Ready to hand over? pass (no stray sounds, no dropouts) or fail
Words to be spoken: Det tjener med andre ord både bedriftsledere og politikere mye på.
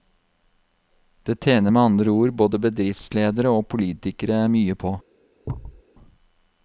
fail